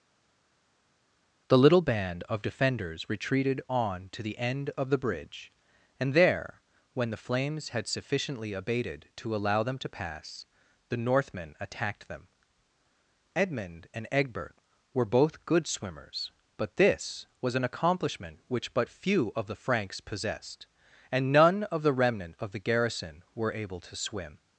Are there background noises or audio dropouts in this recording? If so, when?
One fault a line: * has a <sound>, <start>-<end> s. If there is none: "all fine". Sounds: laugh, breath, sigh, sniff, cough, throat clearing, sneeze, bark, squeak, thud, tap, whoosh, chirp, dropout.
all fine